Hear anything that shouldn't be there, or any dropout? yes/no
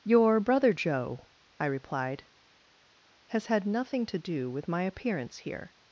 no